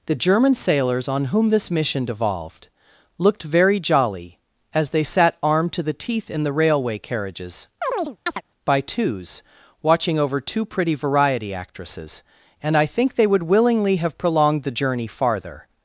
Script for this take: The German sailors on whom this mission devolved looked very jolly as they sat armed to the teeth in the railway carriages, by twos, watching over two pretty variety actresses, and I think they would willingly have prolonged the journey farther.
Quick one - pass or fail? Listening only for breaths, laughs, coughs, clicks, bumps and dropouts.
fail